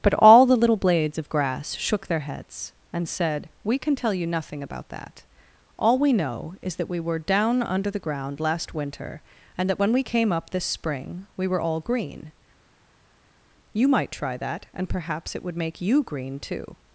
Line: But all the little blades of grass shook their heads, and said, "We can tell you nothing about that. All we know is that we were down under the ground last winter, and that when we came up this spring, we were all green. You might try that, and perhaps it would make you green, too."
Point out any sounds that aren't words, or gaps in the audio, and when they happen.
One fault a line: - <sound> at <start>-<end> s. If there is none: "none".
none